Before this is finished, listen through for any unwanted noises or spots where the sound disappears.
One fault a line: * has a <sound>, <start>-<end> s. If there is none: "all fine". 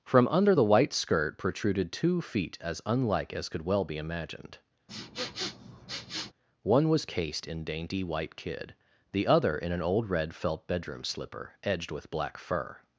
* has a sniff, 4.9-6.3 s